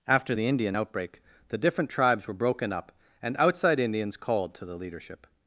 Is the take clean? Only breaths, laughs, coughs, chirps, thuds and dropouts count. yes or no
yes